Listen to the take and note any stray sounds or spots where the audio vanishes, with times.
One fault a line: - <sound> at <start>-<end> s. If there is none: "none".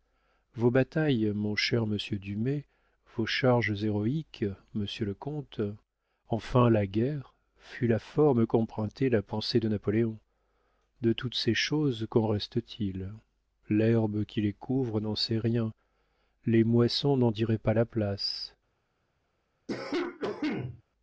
- cough at 19.7-20.8 s